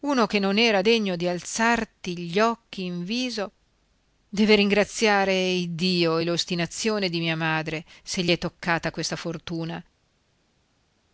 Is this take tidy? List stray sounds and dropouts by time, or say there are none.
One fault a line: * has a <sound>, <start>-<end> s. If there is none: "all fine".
all fine